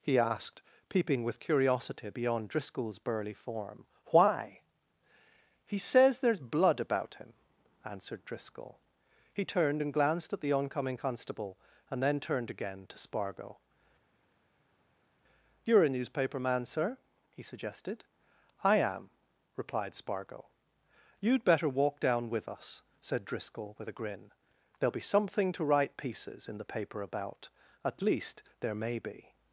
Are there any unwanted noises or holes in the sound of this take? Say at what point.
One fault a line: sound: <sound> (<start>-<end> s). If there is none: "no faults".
no faults